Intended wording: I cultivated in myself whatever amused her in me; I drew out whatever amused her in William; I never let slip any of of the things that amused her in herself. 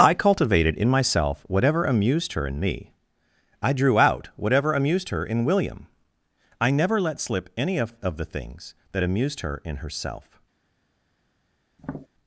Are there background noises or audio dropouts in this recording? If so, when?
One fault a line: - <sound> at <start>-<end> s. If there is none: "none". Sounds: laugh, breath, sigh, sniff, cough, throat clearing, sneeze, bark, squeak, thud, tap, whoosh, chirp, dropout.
- tap at 11.8-12.1 s